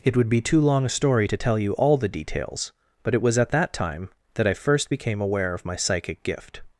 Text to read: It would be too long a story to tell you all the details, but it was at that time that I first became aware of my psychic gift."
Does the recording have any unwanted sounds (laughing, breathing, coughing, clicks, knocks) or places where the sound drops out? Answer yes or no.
no